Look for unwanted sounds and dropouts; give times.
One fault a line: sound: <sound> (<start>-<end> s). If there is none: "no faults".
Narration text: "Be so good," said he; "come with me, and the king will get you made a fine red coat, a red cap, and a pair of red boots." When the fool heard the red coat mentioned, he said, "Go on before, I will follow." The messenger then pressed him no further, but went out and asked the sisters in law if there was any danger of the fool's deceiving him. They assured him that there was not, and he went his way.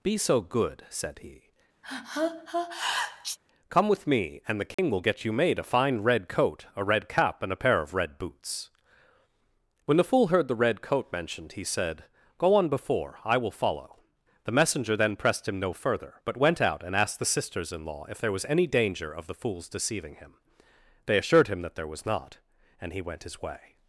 sound: sneeze (1.8-3.4 s)
sound: dropout (4.7-4.8 s)